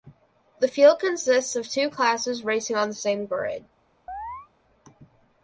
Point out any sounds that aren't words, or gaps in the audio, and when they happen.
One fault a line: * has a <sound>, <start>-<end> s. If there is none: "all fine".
* has a chirp, 4.1-4.5 s